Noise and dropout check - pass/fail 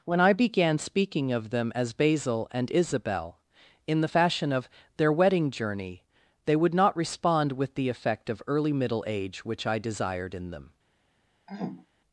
fail